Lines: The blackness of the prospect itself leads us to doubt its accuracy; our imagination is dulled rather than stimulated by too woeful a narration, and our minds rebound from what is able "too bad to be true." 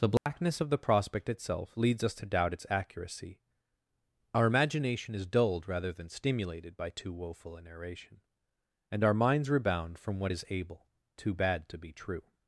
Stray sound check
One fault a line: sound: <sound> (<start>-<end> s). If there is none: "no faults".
sound: dropout (0.2-0.3 s)